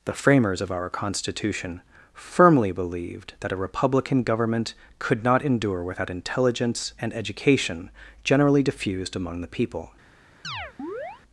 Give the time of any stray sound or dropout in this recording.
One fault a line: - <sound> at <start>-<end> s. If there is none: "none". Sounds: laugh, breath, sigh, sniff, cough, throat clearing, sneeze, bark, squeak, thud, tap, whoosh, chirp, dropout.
- chirp at 10.4-11.2 s